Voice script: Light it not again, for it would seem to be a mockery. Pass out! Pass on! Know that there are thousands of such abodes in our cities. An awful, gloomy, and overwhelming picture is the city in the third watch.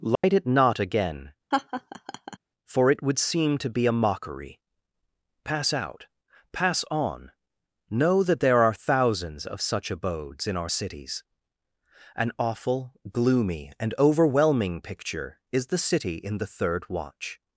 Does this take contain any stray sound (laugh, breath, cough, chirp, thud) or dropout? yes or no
yes